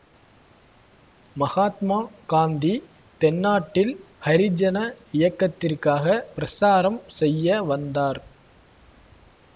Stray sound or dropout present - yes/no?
no